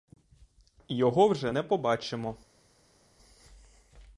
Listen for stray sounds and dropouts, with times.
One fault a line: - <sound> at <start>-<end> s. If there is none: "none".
none